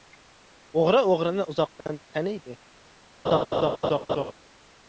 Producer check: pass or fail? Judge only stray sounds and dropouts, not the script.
fail